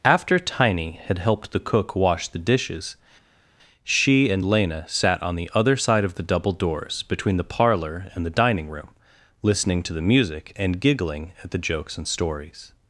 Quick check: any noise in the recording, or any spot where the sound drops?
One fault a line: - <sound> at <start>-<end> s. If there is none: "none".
none